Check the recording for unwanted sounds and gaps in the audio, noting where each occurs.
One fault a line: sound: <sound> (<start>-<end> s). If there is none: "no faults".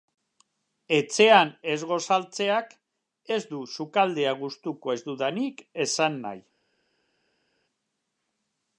no faults